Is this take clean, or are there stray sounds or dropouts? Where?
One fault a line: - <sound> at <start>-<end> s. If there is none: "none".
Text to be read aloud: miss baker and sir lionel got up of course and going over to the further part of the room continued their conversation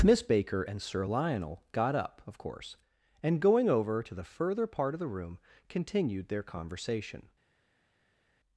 none